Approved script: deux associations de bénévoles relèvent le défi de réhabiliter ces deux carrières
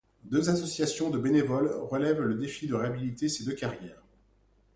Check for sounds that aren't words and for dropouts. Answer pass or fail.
pass